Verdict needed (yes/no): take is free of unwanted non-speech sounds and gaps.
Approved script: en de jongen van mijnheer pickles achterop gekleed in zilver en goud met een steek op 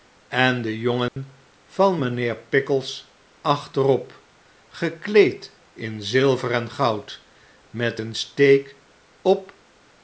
no